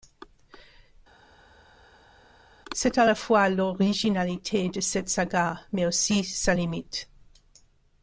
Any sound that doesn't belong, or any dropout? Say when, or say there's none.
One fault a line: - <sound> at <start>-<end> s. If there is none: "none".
none